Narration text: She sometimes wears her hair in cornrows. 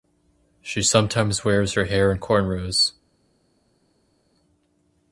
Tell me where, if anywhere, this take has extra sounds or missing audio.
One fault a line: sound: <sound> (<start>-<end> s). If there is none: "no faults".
no faults